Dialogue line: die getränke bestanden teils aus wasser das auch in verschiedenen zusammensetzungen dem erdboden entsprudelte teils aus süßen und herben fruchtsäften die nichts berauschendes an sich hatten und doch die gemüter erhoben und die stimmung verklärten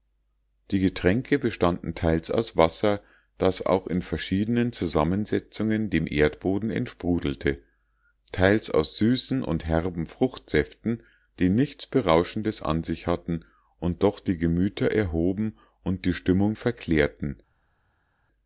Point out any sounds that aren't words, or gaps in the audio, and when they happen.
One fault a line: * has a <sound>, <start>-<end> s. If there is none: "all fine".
all fine